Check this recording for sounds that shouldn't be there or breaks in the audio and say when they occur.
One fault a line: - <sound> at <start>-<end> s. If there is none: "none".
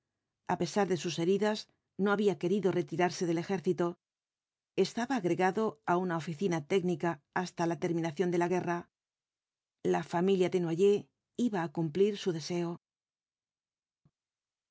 none